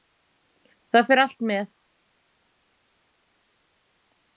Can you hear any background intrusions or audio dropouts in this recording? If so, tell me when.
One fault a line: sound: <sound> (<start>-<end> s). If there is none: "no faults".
no faults